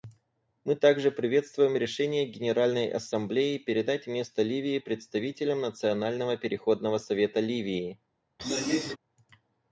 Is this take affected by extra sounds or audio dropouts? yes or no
yes